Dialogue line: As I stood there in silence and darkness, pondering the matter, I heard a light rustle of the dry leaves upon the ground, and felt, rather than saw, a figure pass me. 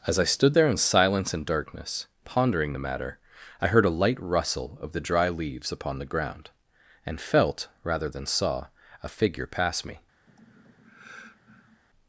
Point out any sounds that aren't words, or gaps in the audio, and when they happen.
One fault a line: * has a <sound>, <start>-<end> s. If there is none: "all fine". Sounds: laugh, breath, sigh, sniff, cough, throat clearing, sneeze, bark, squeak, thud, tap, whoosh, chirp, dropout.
* has a sigh, 10.3-11.8 s